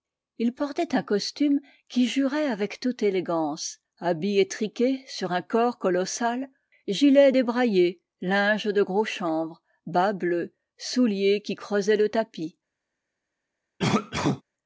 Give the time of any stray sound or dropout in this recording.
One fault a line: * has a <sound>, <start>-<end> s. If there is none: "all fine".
* has a cough, 13.8-14.4 s